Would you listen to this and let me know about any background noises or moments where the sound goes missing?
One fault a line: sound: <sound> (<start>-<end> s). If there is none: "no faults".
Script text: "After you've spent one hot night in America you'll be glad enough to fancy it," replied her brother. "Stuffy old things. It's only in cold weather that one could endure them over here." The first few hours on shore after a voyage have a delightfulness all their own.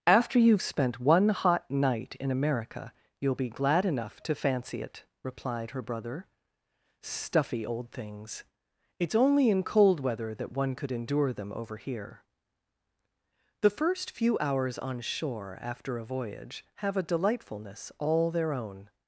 no faults